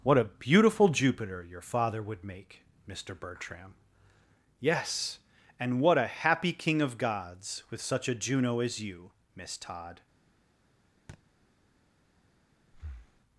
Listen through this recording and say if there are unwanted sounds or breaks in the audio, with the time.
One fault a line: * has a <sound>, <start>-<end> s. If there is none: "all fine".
* has a thud, 11.1-11.2 s
* has a breath, 12.7-13.2 s